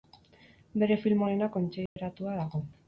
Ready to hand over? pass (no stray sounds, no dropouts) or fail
fail